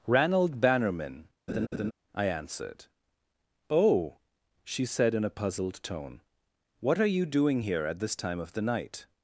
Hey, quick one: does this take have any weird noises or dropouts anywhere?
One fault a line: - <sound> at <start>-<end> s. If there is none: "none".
- laugh at 1.5-1.9 s